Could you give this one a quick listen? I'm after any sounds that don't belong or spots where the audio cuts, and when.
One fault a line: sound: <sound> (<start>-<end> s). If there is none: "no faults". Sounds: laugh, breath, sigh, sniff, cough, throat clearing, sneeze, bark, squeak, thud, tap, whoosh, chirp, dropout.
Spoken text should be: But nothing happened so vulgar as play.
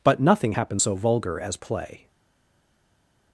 no faults